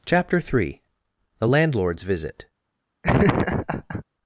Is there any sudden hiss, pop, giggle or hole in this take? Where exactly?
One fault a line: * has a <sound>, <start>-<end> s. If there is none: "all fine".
* has a laugh, 3.0-4.0 s